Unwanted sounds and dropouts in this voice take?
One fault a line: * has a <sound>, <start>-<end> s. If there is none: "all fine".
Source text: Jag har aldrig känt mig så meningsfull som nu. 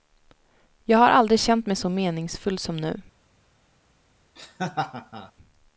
* has a laugh, 4.4-5.3 s